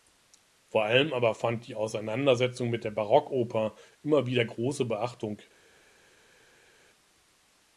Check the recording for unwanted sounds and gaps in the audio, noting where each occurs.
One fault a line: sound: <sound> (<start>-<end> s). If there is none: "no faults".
no faults